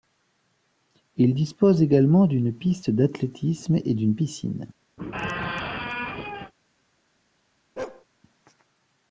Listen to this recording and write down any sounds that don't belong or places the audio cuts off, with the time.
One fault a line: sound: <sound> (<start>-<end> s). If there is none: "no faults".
sound: squeak (5.0-6.5 s)
sound: bark (7.8-8.0 s)